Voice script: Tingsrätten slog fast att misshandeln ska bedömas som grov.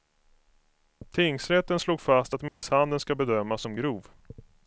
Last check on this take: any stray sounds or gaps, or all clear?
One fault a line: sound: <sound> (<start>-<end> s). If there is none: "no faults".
sound: dropout (2.5-2.6 s)